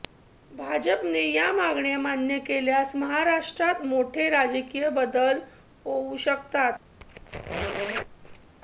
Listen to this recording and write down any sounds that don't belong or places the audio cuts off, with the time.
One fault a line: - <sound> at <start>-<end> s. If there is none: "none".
- squeak at 7.0-8.5 s